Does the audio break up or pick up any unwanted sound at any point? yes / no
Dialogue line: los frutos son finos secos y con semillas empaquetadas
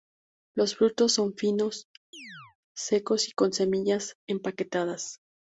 yes